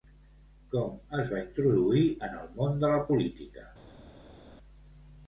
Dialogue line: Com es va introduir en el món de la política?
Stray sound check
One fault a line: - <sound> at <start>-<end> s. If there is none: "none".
none